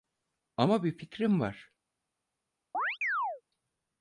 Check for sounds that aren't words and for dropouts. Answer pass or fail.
fail